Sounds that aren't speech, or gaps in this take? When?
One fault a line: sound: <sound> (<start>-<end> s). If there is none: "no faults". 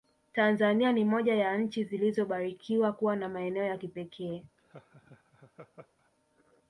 sound: laugh (4.6-6.1 s)